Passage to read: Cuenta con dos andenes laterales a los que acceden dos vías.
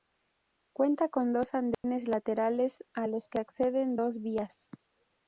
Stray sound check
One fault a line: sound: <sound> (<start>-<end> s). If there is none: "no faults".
sound: dropout (1.7-1.8 s)